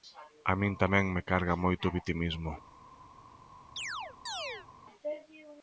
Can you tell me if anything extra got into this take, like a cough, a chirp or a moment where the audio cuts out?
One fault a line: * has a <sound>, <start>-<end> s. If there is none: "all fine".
* has a chirp, 3.8-4.7 s